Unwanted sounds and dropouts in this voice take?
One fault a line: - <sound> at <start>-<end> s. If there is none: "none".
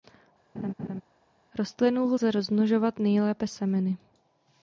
- laugh at 0.5-1.0 s